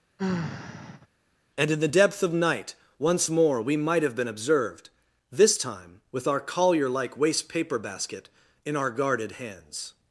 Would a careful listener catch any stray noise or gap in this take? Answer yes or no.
yes